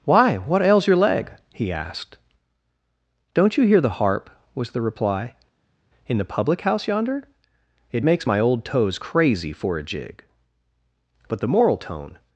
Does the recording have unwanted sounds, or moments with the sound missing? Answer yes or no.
no